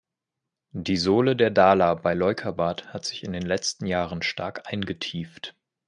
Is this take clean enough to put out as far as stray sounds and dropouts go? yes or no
yes